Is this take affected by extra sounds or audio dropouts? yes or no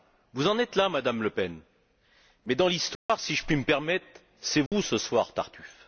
yes